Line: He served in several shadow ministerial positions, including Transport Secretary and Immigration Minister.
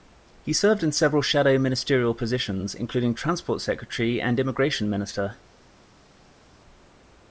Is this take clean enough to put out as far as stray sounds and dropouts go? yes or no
yes